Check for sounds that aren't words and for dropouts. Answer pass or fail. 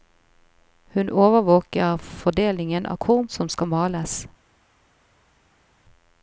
pass